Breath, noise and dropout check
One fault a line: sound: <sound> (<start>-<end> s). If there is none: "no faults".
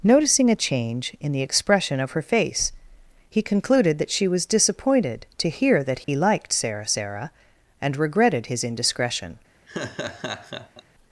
sound: dropout (6.0-6.1 s)
sound: laugh (9.7-10.8 s)